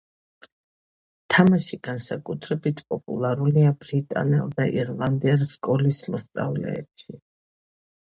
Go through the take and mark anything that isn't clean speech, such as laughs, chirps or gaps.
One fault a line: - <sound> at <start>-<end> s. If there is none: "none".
none